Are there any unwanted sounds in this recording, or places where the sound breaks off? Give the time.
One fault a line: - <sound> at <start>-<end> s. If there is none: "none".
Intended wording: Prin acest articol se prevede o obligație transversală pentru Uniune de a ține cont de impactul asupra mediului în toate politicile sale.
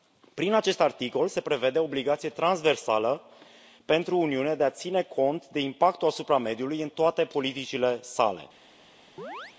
- chirp at 9.2-9.6 s